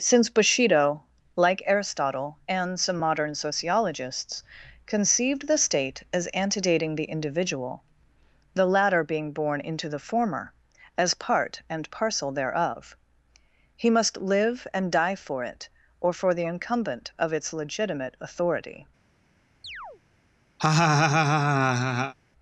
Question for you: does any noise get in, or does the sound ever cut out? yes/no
yes